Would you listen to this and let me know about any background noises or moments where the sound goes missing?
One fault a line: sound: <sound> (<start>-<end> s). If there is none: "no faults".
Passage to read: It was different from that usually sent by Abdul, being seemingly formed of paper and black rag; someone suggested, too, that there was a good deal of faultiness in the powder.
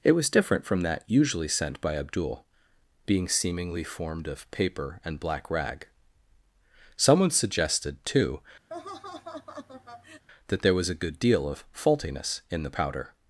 sound: laugh (8.7-10.2 s)